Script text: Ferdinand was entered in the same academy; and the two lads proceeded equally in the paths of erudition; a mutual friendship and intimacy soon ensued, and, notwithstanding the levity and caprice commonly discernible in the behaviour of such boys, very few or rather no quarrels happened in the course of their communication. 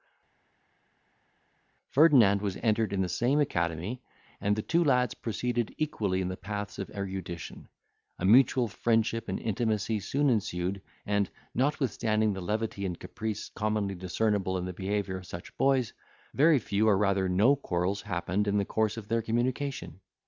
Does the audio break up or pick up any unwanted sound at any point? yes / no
no